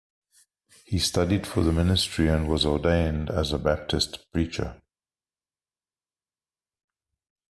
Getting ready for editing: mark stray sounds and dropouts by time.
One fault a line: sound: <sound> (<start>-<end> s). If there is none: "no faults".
no faults